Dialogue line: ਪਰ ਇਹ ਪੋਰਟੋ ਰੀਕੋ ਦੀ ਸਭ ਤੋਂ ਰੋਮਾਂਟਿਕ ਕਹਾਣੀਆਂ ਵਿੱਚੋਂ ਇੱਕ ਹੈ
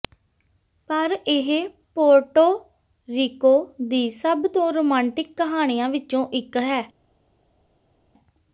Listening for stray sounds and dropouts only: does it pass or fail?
pass